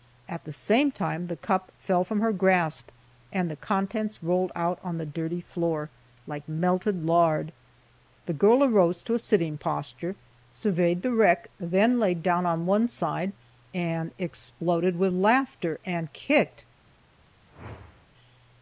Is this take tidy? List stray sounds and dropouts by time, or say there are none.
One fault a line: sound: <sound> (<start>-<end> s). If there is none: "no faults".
sound: whoosh (17.5-18.1 s)